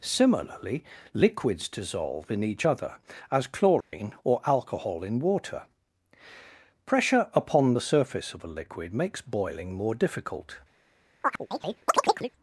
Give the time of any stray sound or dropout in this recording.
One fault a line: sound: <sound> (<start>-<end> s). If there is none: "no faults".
sound: dropout (3.8-3.9 s)
sound: chirp (11.2-12.3 s)